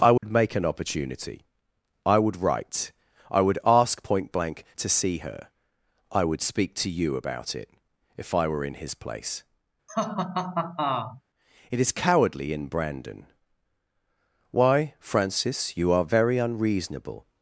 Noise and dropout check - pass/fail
fail